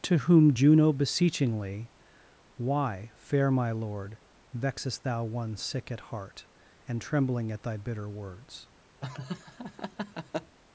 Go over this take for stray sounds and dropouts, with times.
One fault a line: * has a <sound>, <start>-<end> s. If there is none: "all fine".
* has a laugh, 9.0-10.6 s